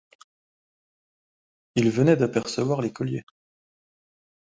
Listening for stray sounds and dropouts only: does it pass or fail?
pass